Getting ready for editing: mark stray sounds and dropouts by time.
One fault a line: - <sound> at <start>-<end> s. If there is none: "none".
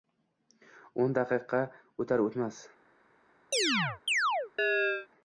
- chirp at 3.5-5.1 s